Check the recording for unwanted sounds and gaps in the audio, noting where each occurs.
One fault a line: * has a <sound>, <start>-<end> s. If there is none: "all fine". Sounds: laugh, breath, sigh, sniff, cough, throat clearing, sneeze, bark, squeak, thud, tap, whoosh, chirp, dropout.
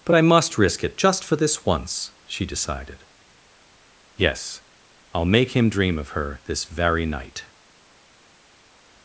all fine